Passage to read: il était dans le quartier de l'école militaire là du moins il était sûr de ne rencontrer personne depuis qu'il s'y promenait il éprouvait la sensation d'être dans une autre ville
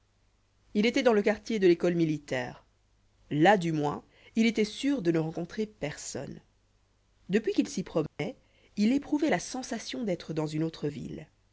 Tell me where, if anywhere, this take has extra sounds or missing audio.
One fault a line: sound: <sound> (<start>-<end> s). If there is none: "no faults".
sound: dropout (8.1-8.2 s)